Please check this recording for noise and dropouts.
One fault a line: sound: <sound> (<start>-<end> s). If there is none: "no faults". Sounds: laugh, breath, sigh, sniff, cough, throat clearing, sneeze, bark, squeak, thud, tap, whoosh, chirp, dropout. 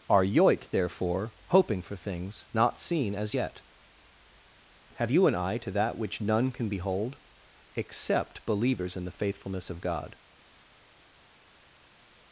no faults